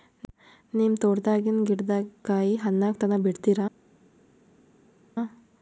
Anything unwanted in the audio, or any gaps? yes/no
no